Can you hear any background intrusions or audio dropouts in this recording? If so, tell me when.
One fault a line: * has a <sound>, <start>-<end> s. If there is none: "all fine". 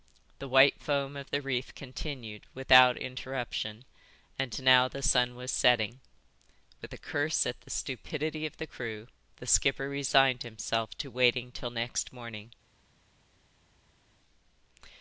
all fine